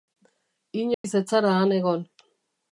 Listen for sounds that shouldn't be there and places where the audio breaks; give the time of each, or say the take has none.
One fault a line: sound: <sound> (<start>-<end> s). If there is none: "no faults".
sound: dropout (0.9-1.0 s)